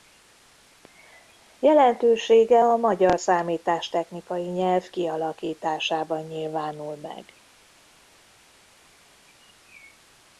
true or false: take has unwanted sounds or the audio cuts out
false